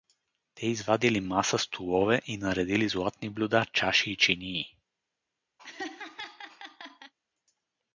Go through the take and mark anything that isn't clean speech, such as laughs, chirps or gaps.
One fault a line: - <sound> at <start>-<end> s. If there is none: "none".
- laugh at 5.6-7.1 s